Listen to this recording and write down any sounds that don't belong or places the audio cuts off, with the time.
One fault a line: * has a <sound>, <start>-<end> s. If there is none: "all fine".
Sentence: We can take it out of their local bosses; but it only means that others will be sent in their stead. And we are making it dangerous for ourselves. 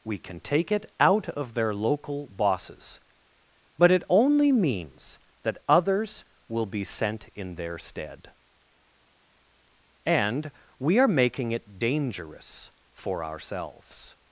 all fine